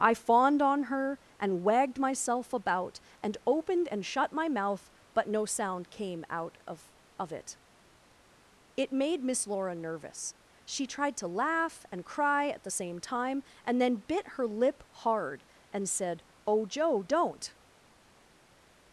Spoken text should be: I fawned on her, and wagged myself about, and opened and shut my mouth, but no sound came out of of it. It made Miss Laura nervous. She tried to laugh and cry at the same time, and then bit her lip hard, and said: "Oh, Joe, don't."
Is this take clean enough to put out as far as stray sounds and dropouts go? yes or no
yes